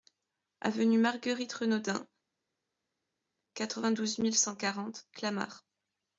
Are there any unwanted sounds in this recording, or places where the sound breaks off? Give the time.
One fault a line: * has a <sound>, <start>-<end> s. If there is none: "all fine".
all fine